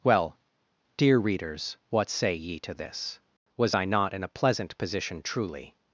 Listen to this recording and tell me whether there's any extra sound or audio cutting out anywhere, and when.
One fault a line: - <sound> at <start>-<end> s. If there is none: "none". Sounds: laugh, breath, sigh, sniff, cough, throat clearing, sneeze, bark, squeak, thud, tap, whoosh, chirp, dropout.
none